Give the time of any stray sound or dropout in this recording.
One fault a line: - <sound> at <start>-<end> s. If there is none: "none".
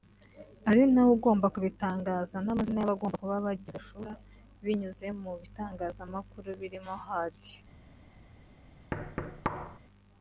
- thud at 8.9-9.8 s